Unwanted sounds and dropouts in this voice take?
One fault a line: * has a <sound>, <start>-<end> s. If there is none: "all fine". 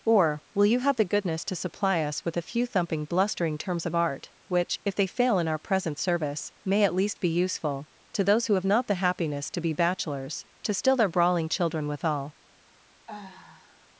* has a sigh, 13.1-13.9 s